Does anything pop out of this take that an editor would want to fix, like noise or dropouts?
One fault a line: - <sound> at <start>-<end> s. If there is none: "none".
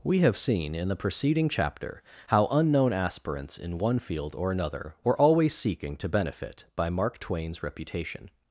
none